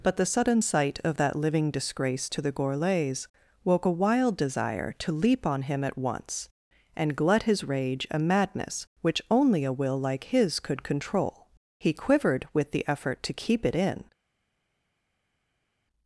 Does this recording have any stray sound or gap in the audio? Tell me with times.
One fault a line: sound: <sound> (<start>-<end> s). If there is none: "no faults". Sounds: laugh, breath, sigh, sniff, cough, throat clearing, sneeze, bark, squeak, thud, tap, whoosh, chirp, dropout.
no faults